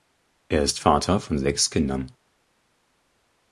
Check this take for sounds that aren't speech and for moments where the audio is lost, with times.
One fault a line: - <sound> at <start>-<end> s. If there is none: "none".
none